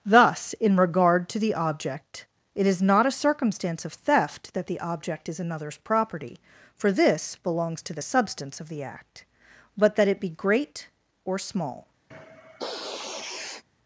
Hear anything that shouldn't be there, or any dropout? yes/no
yes